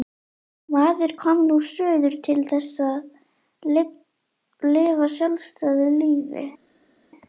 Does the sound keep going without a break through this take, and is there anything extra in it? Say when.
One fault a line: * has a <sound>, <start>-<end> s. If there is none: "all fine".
all fine